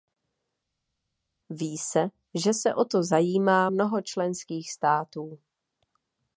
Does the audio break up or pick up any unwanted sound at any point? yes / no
no